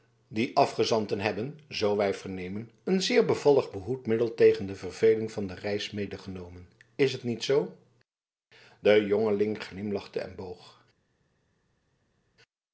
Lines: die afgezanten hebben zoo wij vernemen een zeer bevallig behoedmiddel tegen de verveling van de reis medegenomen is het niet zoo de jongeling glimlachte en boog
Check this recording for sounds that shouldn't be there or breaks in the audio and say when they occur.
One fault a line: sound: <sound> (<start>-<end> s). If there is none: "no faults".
no faults